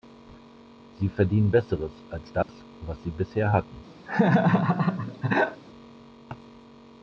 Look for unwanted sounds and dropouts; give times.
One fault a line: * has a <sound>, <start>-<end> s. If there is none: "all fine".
* has a dropout, 2.4-2.5 s
* has a laugh, 4.1-5.6 s